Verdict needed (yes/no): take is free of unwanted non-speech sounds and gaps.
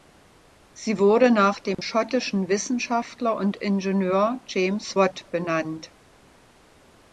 no